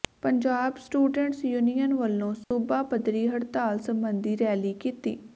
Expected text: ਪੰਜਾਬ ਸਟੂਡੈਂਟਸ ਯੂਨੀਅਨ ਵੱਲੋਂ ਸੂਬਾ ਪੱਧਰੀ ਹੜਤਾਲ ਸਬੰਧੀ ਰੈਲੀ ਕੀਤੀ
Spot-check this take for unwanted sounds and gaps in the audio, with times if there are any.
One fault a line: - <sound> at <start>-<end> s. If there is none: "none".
- dropout at 2.4-2.5 s